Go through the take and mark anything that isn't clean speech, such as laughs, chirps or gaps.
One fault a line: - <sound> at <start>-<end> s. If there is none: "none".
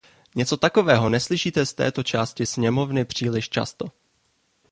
none